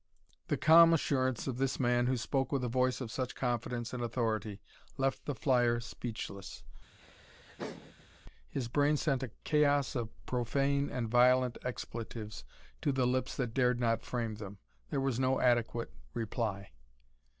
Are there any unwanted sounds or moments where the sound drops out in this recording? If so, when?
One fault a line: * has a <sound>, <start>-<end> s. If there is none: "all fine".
* has a laugh, 7.0-8.2 s